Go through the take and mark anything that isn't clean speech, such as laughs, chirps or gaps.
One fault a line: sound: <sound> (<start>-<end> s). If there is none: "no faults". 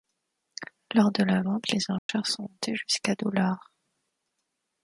sound: dropout (2.0-2.1 s)